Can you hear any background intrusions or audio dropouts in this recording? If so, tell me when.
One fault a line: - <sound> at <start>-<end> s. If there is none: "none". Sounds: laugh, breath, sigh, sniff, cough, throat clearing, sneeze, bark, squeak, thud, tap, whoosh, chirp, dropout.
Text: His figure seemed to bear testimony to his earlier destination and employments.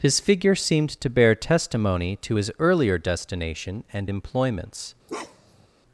- bark at 5.1-5.7 s